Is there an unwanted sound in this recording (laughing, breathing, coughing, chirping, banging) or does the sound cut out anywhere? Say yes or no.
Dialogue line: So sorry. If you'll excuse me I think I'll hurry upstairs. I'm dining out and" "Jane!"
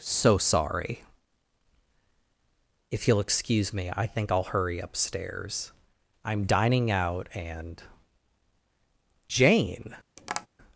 yes